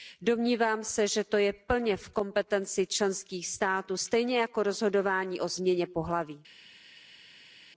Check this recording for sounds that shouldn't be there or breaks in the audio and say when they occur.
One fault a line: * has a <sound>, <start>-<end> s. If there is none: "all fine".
all fine